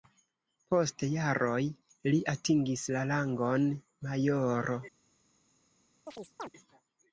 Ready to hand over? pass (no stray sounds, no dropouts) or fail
fail